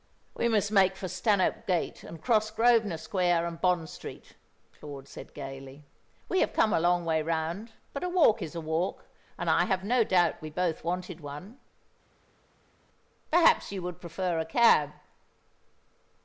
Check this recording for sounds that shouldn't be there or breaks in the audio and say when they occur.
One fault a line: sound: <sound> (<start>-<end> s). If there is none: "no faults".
no faults